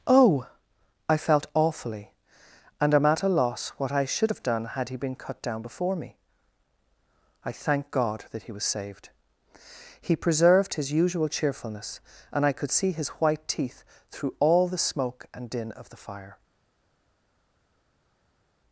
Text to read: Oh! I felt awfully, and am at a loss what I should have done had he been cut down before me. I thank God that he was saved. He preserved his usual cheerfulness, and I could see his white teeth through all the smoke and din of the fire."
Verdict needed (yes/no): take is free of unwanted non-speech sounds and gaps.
yes